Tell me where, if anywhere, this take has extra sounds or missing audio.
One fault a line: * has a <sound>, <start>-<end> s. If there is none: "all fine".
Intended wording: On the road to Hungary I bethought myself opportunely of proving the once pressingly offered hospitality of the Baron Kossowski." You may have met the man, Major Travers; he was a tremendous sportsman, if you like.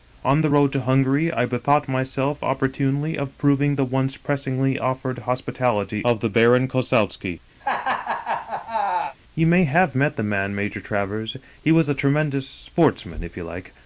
* has a laugh, 7.6-9.2 s